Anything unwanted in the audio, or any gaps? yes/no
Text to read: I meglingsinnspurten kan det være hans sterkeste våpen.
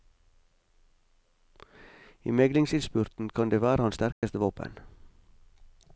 yes